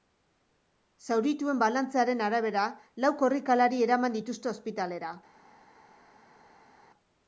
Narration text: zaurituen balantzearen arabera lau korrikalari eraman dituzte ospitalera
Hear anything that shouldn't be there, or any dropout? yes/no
no